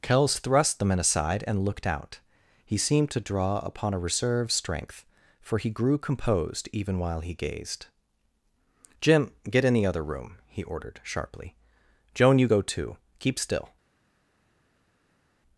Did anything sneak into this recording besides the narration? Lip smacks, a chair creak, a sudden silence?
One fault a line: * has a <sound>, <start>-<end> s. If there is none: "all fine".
all fine